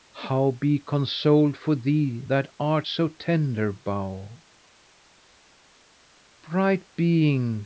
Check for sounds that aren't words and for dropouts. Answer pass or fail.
pass